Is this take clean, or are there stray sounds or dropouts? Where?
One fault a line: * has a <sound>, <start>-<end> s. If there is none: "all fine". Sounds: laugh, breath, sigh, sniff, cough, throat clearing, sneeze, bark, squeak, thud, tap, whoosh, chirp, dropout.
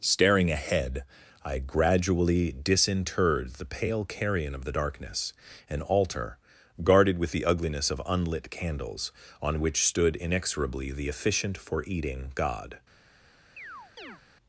* has a chirp, 13.6-14.2 s